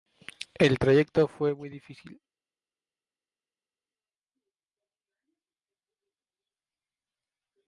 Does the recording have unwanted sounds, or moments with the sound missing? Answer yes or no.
no